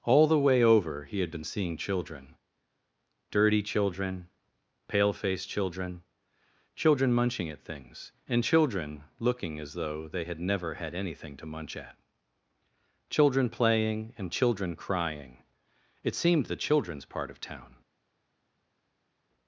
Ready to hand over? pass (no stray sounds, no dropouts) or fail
pass